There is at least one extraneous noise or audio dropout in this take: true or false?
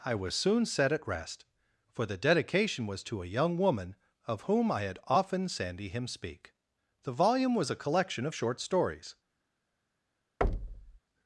true